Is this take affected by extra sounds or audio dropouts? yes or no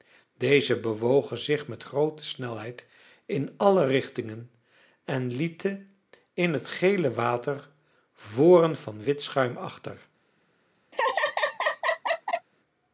yes